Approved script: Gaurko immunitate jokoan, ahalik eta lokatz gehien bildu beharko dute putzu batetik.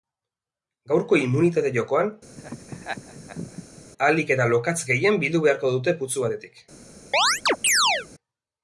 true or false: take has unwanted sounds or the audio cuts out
true